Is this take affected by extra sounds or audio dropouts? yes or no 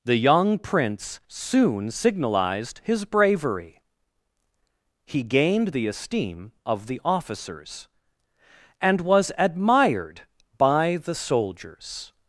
no